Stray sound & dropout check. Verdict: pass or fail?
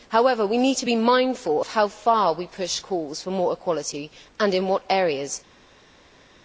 pass